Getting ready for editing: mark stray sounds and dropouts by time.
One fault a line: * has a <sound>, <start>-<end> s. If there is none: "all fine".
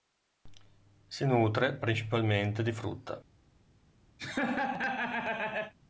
* has a laugh, 4.2-5.7 s